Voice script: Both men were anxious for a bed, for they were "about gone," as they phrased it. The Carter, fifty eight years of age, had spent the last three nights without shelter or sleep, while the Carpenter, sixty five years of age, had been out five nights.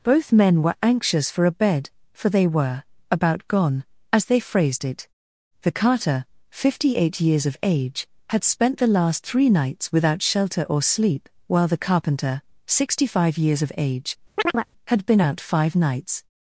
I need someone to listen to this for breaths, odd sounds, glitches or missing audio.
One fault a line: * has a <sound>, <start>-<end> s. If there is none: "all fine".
* has a chirp, 14.4-14.7 s